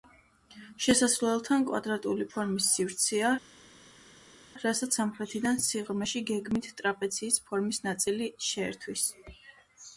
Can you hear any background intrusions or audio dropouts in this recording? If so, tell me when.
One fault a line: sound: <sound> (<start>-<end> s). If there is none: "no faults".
no faults